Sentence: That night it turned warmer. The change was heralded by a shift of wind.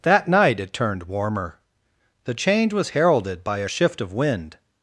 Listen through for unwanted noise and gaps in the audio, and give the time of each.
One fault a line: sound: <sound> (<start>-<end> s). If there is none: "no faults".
no faults